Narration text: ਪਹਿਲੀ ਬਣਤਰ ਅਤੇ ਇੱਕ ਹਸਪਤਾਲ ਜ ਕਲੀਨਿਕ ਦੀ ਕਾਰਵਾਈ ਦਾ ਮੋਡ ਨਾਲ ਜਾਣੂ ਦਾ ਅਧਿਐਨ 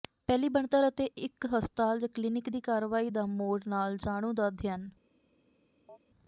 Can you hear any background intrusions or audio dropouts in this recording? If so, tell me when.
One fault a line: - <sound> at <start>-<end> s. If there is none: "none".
- chirp at 5.9-6.0 s